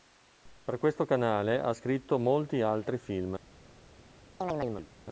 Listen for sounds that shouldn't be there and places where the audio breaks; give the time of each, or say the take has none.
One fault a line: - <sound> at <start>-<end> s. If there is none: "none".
- chirp at 4.4-4.9 s